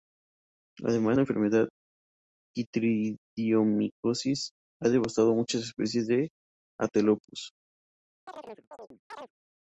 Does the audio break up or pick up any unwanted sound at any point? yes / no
yes